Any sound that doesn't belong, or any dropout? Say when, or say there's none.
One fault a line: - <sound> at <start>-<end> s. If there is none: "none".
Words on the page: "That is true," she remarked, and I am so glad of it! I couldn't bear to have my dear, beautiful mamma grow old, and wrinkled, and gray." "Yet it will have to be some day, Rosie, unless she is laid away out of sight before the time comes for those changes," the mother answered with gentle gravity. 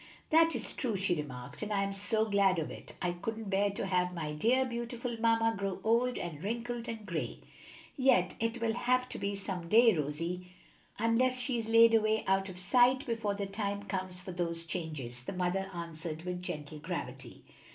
none